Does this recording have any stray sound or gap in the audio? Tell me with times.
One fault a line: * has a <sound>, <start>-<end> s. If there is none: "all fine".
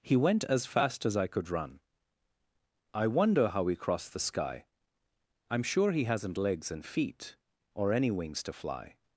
all fine